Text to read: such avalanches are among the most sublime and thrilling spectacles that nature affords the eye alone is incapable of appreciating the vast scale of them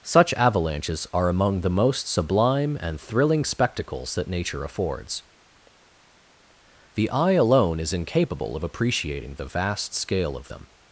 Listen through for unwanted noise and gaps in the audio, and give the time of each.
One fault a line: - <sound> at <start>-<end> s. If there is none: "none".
none